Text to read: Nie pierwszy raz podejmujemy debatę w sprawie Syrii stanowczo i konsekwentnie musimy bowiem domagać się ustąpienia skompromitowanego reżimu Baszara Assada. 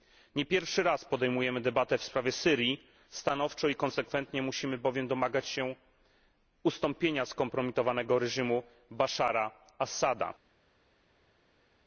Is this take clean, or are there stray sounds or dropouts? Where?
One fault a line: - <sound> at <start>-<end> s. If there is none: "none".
none